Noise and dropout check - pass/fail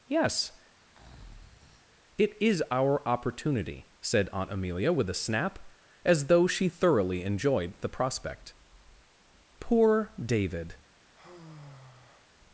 fail